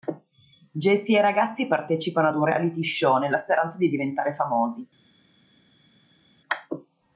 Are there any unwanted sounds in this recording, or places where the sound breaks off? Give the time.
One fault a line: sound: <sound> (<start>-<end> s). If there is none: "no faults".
no faults